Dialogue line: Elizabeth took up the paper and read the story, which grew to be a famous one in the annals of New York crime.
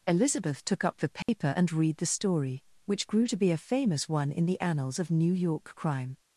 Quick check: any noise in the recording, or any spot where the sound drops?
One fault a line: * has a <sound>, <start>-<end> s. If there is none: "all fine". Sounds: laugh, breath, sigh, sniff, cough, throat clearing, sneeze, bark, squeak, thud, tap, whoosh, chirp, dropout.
* has a dropout, 1.2-1.3 s